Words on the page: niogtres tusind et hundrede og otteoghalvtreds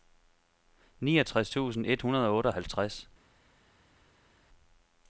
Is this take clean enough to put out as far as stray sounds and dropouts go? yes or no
yes